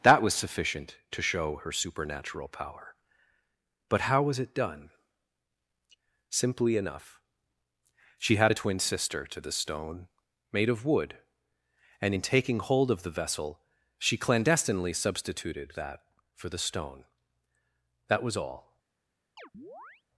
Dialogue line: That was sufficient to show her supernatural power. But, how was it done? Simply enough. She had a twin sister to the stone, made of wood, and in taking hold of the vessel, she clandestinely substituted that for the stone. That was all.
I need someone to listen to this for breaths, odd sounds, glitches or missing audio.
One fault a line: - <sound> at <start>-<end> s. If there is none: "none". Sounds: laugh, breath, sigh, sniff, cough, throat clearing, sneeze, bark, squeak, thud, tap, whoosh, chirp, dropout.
- chirp at 19.4-20.0 s